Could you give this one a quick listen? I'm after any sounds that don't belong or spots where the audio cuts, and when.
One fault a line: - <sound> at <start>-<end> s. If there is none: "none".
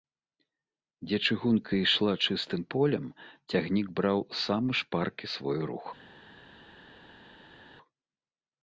none